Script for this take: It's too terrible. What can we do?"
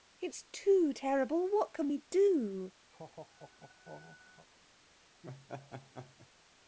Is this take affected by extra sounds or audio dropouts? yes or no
yes